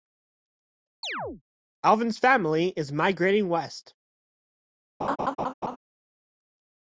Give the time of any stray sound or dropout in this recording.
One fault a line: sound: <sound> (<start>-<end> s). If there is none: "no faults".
sound: chirp (1.0-1.4 s)
sound: laugh (5.0-5.8 s)